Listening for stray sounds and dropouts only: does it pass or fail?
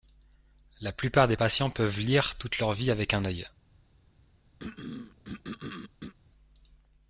fail